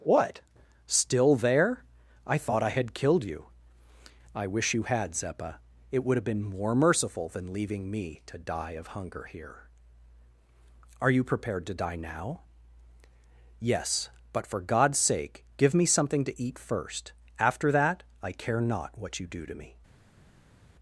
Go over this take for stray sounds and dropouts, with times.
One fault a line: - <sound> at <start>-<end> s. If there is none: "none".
none